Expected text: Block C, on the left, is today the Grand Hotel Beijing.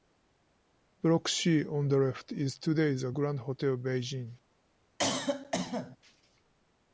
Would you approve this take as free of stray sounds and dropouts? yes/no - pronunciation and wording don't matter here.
no